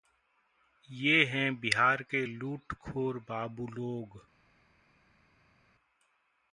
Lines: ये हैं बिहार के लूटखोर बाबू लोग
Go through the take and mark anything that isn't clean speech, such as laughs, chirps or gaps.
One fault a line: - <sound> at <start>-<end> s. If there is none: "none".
none